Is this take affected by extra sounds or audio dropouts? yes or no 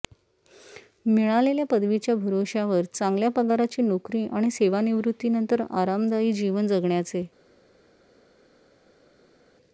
no